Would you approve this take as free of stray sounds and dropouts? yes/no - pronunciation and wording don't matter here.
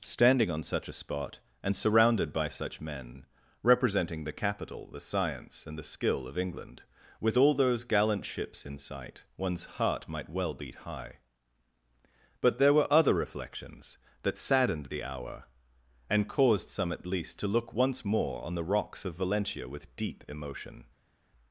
yes